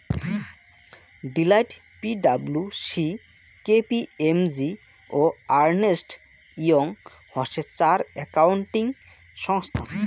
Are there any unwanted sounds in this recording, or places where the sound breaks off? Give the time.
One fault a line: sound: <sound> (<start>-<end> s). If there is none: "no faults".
no faults